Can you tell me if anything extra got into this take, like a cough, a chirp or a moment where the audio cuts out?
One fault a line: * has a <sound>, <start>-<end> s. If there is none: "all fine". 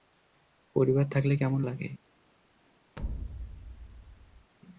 * has a thud, 3.0-4.5 s